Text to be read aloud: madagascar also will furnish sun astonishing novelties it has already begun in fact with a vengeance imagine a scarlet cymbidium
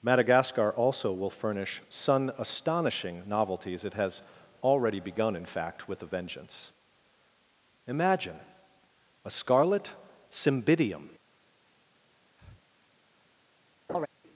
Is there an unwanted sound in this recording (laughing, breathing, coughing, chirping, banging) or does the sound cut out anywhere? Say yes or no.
yes